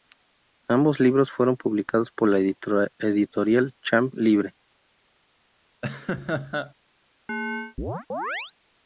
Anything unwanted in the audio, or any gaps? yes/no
yes